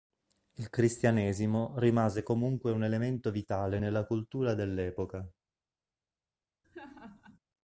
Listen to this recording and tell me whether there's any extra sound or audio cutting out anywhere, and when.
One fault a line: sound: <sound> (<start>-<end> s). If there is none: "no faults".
sound: laugh (6.6-7.4 s)